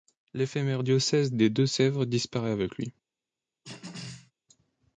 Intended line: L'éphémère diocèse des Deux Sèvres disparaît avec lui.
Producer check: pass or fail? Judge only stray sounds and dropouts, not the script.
fail